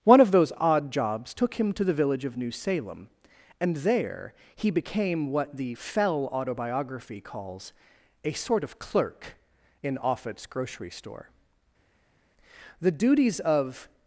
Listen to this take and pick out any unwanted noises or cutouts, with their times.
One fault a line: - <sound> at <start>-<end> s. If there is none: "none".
none